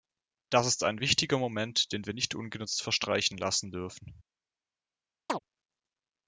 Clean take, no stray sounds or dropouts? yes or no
no